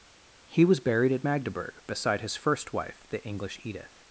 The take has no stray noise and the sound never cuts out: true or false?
true